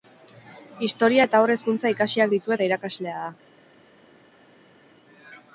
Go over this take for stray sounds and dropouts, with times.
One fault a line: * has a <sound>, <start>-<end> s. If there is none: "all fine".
all fine